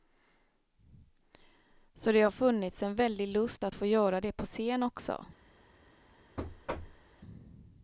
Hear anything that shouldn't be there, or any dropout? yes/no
yes